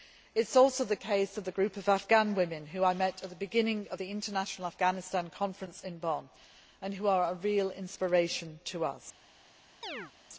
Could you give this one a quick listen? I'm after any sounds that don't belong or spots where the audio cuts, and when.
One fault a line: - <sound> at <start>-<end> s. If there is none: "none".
- chirp at 9.8-10.1 s